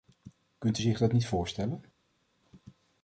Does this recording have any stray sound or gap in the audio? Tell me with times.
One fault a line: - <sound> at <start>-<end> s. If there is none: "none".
none